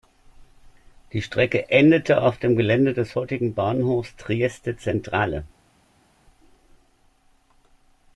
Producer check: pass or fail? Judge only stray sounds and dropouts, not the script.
pass